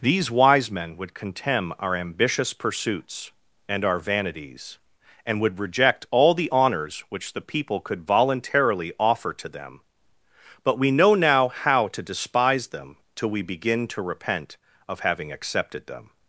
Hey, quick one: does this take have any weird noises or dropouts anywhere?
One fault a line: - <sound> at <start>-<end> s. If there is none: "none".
none